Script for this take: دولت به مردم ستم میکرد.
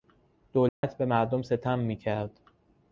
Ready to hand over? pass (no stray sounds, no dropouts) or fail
fail